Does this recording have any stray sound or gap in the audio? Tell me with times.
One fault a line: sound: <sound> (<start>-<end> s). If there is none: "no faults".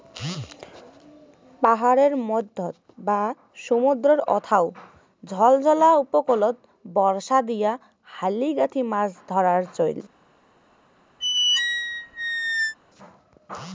sound: squeak (11.2-12.7 s)